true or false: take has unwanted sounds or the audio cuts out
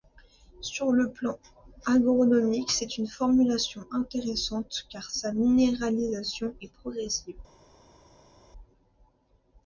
false